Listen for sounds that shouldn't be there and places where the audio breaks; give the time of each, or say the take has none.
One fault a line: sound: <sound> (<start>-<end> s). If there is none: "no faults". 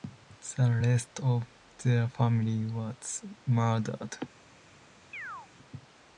sound: chirp (5.1-5.5 s)